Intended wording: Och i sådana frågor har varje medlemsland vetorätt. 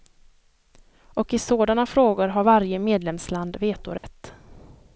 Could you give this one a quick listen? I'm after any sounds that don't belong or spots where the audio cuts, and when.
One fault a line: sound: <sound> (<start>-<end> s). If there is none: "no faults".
sound: dropout (4.0-4.0 s)